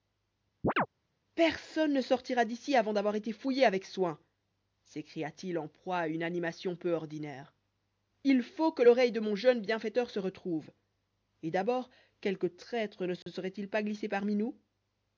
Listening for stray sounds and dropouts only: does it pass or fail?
fail